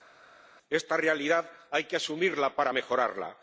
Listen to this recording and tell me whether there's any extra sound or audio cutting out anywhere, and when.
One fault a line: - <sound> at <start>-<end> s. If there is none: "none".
none